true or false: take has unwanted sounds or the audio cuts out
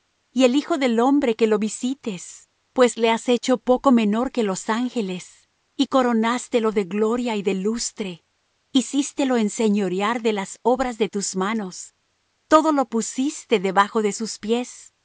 false